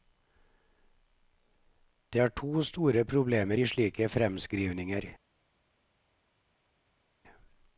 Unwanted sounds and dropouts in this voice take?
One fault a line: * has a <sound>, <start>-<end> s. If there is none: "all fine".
all fine